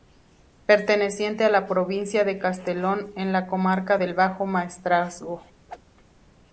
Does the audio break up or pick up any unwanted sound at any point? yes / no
yes